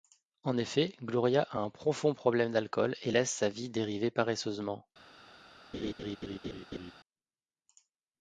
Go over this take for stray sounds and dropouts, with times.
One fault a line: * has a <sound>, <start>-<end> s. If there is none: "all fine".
* has a laugh, 5.7-6.9 s